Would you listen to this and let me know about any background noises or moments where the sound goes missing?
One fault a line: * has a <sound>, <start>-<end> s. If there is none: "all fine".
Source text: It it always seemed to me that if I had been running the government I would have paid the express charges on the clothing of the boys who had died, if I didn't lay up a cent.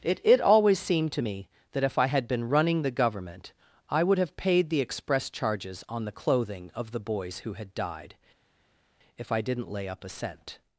all fine